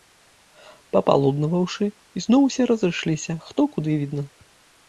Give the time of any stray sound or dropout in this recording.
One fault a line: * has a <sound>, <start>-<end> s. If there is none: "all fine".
all fine